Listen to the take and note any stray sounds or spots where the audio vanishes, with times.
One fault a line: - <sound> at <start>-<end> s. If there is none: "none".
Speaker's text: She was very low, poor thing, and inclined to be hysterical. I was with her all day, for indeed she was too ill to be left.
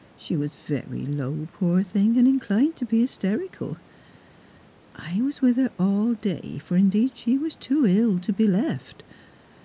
none